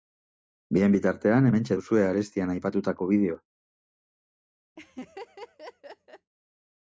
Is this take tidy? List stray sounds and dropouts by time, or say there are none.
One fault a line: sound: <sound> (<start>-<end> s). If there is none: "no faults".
sound: laugh (4.8-6.3 s)